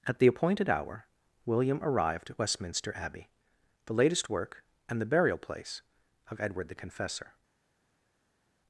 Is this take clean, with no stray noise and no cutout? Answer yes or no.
yes